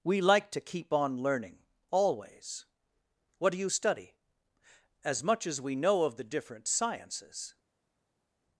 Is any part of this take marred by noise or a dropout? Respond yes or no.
no